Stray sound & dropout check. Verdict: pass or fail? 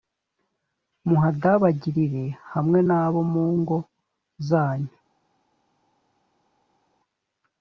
pass